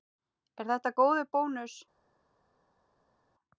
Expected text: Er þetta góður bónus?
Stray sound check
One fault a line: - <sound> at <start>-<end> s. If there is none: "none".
none